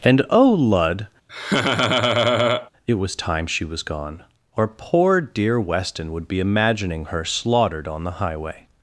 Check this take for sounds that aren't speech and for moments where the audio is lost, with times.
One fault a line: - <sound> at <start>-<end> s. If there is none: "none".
- laugh at 1.3-2.7 s